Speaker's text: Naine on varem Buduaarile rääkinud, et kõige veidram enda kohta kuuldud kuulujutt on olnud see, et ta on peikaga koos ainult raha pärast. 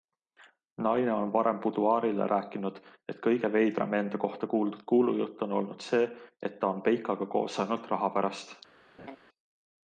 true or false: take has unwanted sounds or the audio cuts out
true